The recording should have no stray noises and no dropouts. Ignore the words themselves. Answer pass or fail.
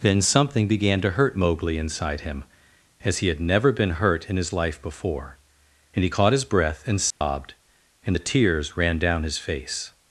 fail